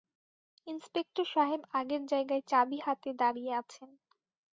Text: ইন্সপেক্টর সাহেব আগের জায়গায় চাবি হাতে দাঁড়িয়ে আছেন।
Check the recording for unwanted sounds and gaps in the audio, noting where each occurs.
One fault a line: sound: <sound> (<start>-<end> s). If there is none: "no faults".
no faults